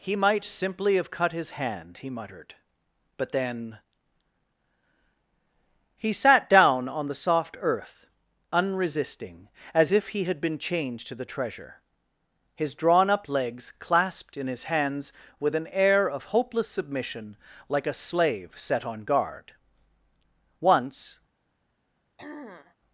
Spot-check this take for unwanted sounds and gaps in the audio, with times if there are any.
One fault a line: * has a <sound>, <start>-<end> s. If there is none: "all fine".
* has a throat clearing, 22.2-22.8 s